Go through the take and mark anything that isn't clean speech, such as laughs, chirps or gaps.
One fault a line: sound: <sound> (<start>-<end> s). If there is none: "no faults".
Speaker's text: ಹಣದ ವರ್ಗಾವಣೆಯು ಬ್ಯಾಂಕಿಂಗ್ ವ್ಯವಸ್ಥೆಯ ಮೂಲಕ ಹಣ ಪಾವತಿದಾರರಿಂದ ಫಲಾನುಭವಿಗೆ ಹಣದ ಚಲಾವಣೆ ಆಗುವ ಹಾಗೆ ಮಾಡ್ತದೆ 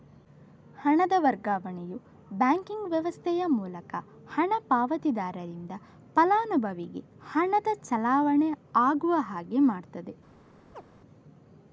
sound: chirp (10.7-10.8 s)